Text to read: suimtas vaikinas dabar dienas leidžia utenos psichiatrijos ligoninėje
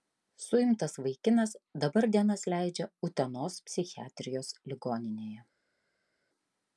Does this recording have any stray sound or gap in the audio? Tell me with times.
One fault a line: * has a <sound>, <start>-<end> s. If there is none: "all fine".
all fine